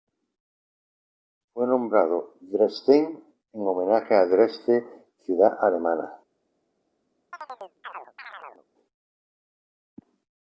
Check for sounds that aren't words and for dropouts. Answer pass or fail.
fail